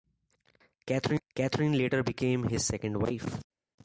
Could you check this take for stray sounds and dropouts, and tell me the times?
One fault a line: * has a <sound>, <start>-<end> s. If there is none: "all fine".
all fine